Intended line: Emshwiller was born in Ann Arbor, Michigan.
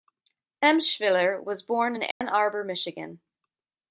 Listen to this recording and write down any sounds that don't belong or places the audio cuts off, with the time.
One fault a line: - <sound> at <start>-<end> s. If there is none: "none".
- dropout at 2.1-2.2 s